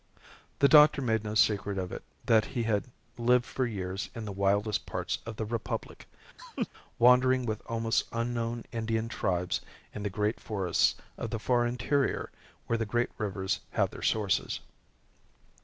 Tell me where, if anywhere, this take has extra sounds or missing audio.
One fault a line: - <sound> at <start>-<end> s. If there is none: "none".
- laugh at 6.4-6.7 s